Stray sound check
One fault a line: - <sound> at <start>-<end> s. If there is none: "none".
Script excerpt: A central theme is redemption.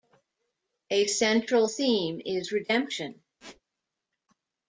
- squeak at 3.4-3.6 s